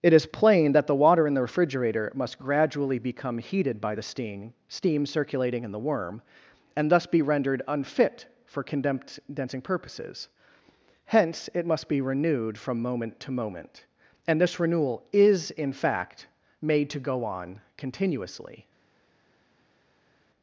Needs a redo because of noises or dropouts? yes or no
no